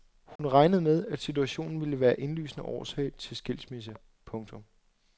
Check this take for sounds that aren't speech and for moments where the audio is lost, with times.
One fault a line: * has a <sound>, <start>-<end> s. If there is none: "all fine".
* has a dropout, 0.4-0.4 s